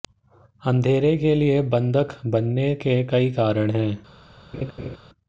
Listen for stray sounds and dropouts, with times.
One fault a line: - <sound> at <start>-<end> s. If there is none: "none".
- laugh at 4.5-5.0 s